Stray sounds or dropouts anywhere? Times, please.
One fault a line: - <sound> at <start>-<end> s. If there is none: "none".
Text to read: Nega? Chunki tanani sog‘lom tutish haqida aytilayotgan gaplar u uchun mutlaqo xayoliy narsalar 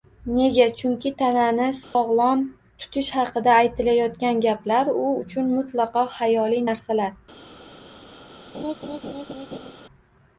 - dropout at 1.8-2.0 s
- laugh at 8.5-9.7 s